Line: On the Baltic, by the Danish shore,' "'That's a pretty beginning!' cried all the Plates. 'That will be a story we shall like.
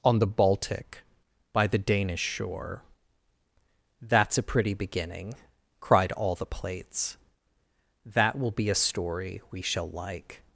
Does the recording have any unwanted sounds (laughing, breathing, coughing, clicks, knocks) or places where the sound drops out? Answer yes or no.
no